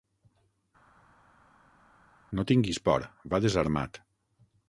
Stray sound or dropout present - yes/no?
no